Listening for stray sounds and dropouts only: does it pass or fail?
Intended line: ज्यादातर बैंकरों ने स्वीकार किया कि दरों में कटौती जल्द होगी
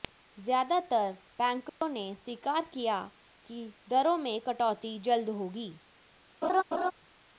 fail